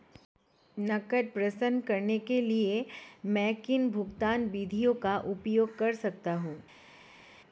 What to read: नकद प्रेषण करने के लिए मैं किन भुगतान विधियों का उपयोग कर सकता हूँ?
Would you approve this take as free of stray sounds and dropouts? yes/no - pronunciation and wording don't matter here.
yes